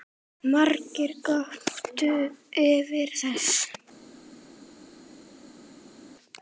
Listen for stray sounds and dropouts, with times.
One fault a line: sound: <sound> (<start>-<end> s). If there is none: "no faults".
no faults